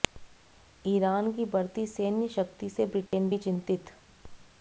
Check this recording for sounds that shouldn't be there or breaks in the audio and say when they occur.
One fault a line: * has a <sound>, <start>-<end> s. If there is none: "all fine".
* has a dropout, 3.1-3.1 s